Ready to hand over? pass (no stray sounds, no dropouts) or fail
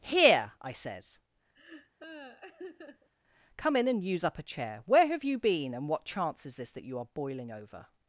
fail